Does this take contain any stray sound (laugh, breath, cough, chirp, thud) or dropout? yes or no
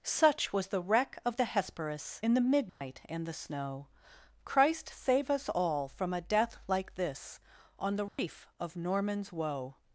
yes